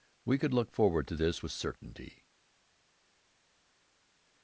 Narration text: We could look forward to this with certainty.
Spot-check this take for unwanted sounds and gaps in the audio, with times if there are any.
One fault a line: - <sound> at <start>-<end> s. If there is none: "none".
none